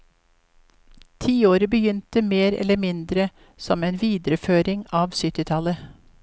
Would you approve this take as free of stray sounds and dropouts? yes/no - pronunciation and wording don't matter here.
yes